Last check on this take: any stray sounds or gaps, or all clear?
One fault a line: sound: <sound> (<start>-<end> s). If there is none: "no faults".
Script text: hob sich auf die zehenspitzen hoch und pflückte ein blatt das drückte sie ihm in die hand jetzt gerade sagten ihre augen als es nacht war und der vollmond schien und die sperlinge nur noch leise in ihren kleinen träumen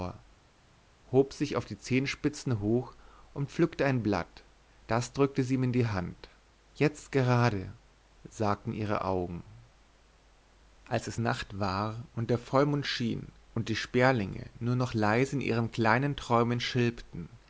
no faults